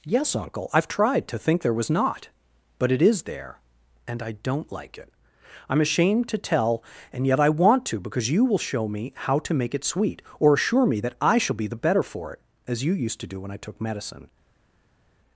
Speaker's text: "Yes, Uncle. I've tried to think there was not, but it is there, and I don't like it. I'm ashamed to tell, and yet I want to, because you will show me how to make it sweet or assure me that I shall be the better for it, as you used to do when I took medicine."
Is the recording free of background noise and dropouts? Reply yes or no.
yes